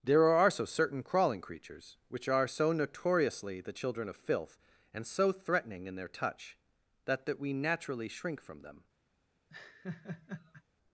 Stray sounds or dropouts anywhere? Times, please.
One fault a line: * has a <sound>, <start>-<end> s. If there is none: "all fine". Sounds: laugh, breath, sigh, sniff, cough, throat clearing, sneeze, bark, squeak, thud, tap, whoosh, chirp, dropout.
* has a laugh, 9.5-10.6 s